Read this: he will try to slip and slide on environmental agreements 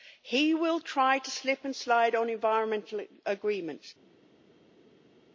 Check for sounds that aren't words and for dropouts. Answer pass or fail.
pass